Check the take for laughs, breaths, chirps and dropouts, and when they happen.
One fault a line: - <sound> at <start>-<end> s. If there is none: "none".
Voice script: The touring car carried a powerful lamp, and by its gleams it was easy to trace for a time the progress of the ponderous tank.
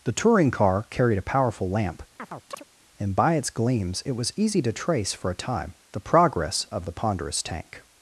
- chirp at 2.2-2.6 s